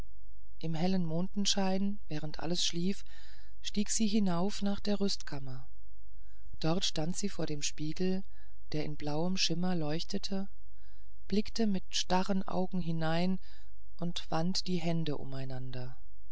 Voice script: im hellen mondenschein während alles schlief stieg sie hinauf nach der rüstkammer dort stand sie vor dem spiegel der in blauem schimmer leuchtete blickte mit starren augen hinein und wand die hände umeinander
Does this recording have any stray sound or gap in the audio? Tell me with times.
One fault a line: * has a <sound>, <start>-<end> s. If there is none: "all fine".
all fine